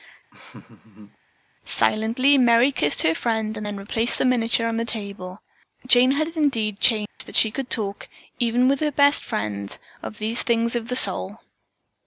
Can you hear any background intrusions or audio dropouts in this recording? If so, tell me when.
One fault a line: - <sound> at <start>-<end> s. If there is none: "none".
- laugh at 0.3-1.2 s
- dropout at 7.1-7.2 s